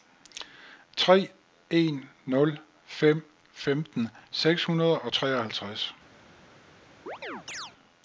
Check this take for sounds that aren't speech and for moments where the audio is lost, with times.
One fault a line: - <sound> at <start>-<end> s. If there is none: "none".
- chirp at 7.1-7.7 s